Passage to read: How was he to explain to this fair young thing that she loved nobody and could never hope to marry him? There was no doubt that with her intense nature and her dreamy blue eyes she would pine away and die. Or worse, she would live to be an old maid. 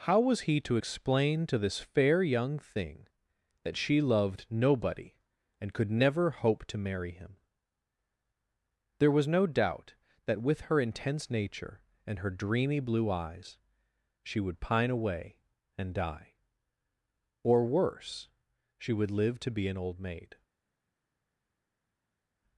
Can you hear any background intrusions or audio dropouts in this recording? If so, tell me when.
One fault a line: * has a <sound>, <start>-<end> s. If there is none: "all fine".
all fine